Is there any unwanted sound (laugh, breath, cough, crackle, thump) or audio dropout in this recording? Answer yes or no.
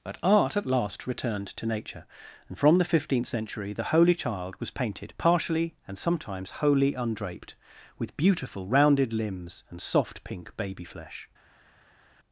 no